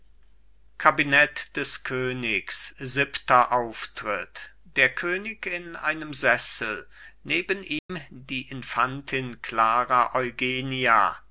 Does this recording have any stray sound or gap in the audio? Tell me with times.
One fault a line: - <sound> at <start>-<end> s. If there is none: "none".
- dropout at 7.8-7.9 s